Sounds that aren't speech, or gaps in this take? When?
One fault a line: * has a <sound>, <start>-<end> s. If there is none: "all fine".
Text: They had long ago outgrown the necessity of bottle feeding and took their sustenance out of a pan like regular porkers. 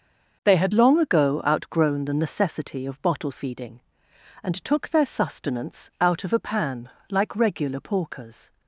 all fine